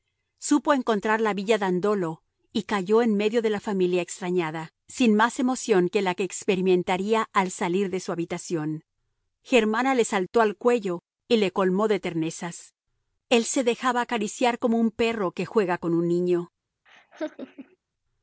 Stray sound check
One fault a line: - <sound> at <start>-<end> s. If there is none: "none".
- laugh at 16.9-17.8 s